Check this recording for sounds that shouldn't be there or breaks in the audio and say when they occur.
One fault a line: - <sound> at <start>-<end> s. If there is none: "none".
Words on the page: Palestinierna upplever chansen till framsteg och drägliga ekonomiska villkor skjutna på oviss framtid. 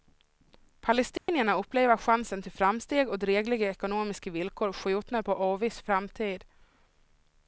- dropout at 1.2-1.3 s